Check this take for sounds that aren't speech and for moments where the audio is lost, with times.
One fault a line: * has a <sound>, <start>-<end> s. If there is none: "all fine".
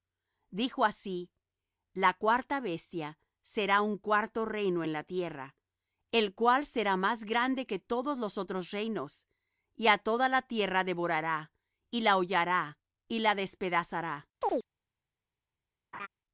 * has a chirp, 14.4-14.7 s
* has a laugh, 15.9-16.1 s